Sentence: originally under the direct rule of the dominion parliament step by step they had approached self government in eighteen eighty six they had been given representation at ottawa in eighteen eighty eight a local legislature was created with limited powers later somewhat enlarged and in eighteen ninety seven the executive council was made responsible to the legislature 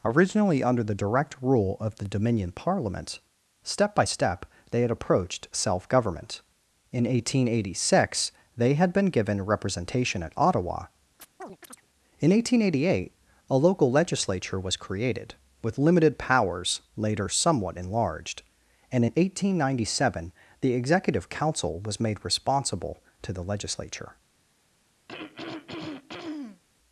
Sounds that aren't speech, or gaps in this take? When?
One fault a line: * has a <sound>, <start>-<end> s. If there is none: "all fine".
* has a chirp, 11.2-11.9 s
* has a throat clearing, 25.1-26.6 s